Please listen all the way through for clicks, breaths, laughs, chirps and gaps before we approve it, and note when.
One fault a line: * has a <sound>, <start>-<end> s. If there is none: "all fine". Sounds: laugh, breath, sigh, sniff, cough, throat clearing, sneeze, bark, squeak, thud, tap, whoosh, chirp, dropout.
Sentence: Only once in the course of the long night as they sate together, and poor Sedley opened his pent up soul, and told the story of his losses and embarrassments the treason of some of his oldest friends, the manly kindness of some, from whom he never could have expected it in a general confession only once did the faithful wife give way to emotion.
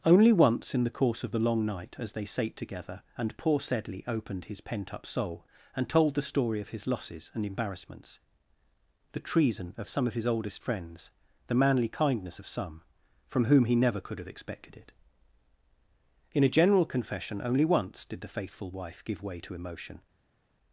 all fine